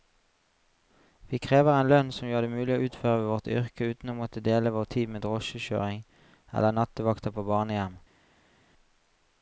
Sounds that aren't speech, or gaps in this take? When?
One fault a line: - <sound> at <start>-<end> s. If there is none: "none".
none